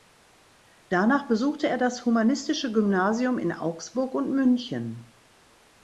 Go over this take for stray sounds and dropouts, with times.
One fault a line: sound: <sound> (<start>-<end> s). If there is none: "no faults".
no faults